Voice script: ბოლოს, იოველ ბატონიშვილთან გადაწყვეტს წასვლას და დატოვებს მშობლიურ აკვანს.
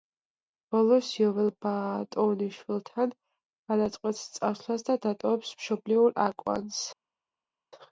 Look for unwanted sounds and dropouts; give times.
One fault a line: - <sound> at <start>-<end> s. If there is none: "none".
none